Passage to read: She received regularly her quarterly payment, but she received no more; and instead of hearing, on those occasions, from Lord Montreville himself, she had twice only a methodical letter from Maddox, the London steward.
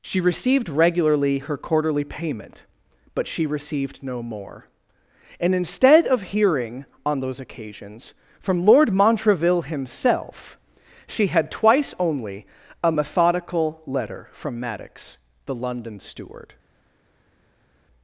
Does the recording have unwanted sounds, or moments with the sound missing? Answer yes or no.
no